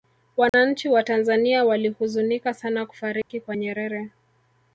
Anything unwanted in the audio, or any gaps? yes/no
yes